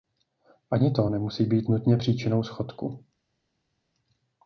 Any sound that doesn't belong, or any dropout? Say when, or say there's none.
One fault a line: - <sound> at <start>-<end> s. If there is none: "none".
none